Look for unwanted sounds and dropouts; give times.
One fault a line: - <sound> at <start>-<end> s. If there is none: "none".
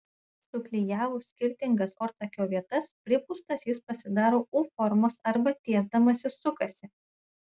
none